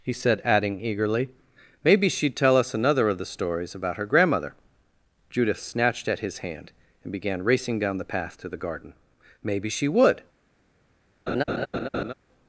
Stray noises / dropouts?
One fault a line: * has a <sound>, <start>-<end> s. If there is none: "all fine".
* has a laugh, 11.3-12.1 s